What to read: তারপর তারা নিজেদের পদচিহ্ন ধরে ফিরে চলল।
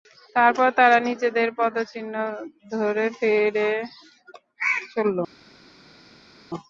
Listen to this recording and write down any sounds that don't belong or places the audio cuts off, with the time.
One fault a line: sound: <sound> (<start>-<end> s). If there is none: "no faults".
no faults